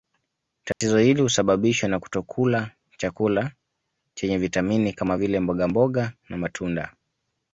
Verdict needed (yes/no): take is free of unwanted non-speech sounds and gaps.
no